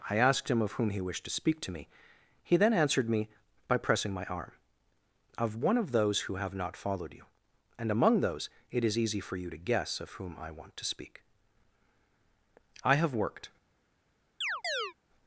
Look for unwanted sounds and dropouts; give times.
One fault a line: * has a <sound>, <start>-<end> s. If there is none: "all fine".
* has a chirp, 14.4-14.9 s